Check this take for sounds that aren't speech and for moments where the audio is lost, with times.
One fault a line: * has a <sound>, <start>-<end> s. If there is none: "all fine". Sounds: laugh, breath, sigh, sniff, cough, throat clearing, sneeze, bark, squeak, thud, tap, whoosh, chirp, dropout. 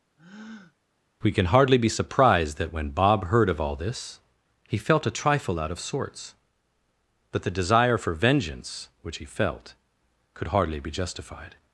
* has a breath, 0.2-0.8 s